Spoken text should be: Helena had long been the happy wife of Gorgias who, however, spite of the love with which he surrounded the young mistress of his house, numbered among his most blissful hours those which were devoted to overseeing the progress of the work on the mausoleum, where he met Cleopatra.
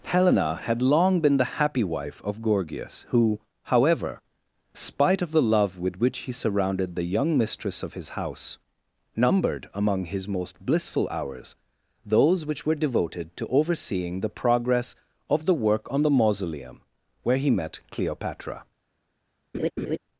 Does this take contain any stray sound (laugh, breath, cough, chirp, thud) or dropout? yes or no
yes